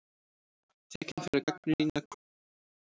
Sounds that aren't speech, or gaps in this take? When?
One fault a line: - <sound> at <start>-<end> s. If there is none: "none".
none